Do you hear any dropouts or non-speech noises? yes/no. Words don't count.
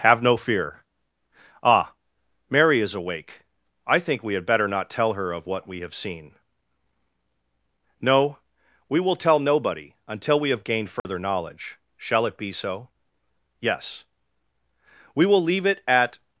yes